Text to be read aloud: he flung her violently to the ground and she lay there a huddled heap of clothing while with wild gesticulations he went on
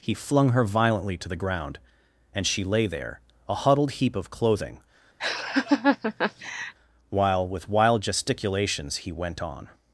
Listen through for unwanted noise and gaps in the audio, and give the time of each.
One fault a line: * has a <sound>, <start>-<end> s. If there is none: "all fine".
* has a laugh, 5.2-6.7 s